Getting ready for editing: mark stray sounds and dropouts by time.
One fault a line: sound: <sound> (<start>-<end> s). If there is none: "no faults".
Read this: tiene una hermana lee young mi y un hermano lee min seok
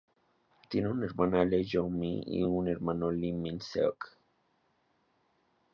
no faults